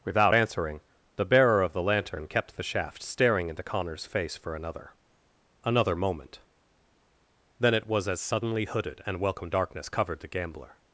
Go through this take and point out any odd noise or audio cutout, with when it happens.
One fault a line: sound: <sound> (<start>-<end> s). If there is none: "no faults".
no faults